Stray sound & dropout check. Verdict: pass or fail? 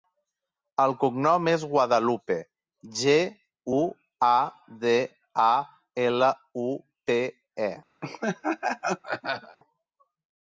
fail